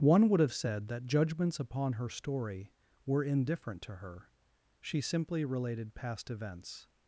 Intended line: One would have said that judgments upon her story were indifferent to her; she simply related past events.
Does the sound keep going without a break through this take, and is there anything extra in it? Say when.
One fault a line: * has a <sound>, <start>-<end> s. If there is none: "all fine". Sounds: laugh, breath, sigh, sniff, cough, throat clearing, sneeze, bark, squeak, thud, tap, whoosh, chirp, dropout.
all fine